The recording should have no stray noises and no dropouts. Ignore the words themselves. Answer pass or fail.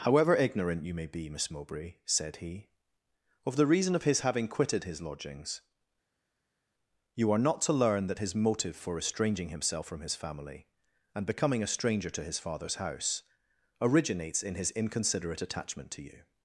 pass